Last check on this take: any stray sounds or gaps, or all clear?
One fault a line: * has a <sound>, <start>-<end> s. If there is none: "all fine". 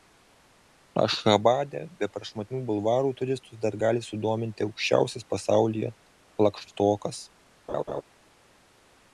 * has a laugh, 7.7-8.0 s